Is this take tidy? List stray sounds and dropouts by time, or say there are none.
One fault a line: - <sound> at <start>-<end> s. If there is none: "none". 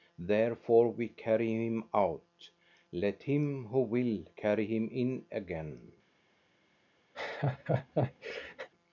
- laugh at 7.1-8.7 s